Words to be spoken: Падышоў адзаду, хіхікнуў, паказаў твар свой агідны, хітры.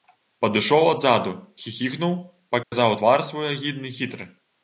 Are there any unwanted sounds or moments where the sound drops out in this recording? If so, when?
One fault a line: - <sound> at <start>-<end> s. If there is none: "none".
- dropout at 2.6-2.7 s